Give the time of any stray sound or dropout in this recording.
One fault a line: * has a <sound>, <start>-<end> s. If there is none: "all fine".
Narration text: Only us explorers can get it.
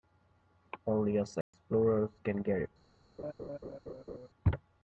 * has a dropout, 1.4-1.5 s
* has a laugh, 3.2-4.3 s